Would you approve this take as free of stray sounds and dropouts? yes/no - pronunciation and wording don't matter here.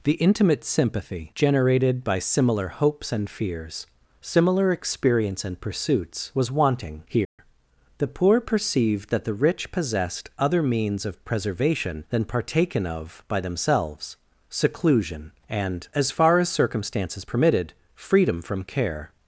no